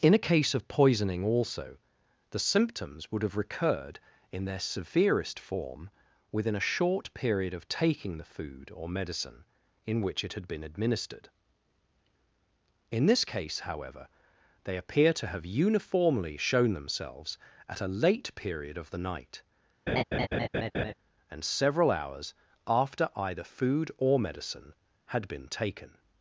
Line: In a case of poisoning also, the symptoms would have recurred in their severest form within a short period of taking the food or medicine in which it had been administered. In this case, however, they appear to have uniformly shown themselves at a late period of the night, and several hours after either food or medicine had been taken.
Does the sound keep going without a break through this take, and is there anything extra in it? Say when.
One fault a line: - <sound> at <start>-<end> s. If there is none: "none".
- laugh at 19.9-20.9 s